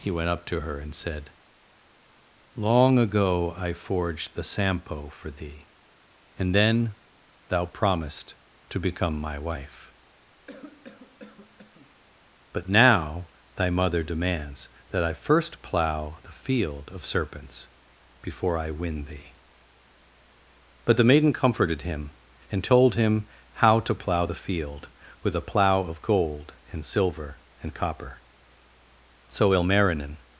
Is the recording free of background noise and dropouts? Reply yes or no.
no